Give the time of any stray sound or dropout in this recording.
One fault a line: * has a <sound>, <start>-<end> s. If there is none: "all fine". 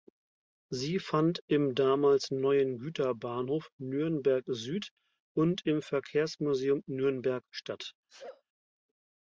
* has a sneeze, 8.1-8.4 s